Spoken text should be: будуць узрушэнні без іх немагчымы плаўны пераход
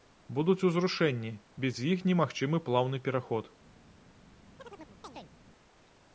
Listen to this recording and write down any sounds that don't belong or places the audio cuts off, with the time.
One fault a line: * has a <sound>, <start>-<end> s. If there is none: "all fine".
* has a chirp, 4.6-5.3 s